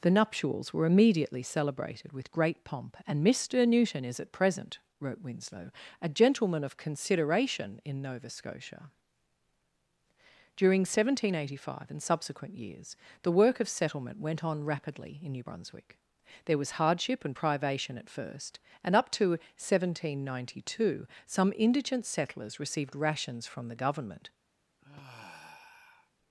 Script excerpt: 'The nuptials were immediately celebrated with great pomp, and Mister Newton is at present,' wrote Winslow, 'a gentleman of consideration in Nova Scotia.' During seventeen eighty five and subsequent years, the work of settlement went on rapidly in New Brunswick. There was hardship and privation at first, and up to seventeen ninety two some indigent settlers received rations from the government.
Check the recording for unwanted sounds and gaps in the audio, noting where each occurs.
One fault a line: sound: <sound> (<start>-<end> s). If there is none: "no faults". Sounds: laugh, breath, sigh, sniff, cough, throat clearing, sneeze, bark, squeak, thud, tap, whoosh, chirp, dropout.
sound: sigh (24.8-26.1 s)